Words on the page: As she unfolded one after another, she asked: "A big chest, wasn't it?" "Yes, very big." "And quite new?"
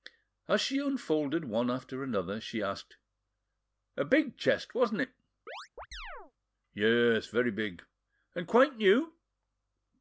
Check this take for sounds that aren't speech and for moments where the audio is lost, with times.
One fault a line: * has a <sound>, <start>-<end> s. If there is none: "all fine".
* has a chirp, 5.5-6.3 s